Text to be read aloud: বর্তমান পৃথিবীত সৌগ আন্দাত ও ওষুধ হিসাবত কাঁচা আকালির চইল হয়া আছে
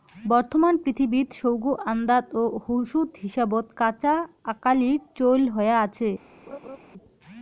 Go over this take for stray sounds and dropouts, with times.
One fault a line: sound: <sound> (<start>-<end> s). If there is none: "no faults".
sound: laugh (6.5-6.8 s)